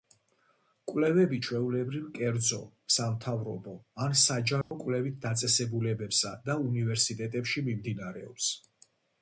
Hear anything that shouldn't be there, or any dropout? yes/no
yes